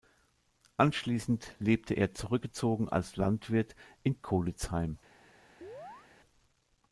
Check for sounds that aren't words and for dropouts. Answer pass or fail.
fail